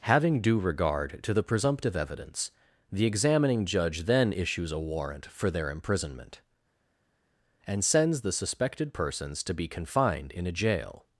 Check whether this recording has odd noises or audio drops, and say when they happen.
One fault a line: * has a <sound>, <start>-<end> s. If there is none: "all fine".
all fine